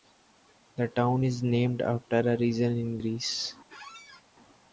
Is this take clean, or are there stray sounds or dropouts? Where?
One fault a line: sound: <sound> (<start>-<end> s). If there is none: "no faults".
sound: squeak (3.7-4.2 s)